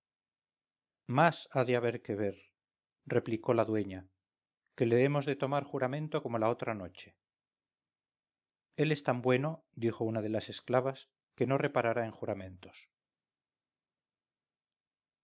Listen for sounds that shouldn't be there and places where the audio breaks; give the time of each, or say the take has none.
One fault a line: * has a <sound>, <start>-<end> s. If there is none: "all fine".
all fine